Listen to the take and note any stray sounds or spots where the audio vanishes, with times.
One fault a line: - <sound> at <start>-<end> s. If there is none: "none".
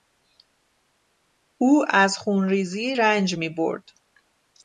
none